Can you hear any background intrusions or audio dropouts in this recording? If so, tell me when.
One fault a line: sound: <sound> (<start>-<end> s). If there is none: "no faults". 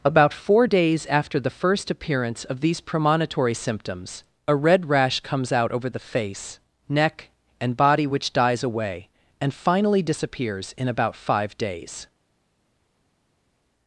no faults